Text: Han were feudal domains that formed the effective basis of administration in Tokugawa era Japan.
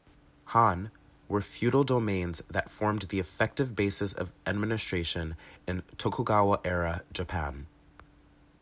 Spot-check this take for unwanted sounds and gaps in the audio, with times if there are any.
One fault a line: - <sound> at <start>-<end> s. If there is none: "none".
none